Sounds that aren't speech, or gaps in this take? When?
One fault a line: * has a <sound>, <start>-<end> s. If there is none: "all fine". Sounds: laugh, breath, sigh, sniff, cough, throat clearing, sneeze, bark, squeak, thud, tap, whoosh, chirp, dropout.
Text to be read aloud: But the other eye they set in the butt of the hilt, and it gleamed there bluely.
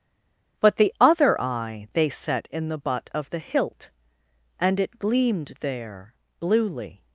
all fine